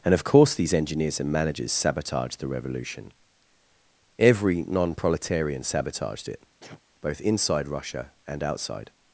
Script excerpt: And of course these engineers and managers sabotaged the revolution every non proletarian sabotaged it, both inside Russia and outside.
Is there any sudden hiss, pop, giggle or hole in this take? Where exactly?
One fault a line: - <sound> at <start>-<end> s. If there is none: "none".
- sneeze at 6.6-6.8 s